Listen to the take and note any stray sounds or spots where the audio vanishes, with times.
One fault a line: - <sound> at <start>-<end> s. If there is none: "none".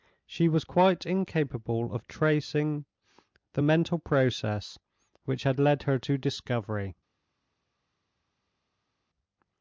none